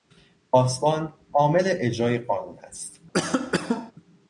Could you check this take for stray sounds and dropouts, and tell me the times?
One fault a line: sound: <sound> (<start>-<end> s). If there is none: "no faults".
sound: cough (3.1-3.9 s)